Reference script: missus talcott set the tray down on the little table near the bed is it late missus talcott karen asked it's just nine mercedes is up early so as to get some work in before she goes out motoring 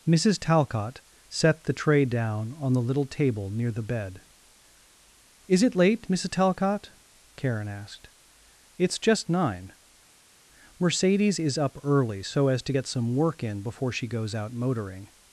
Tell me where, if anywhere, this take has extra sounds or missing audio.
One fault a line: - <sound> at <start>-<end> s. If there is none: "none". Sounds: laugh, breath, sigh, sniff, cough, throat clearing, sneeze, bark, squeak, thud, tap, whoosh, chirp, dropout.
none